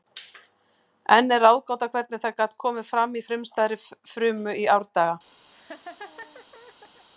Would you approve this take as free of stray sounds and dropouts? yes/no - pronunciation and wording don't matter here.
no